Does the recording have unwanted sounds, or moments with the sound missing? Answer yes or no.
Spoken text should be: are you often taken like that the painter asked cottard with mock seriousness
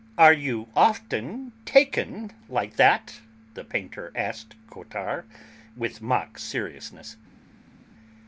no